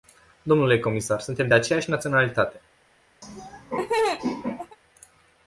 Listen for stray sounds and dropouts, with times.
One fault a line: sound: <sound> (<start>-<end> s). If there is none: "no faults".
sound: laugh (3.2-4.8 s)